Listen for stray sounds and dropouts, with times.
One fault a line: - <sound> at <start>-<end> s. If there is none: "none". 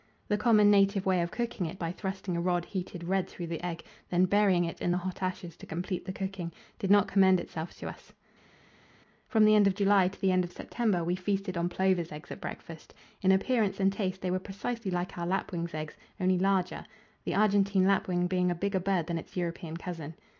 none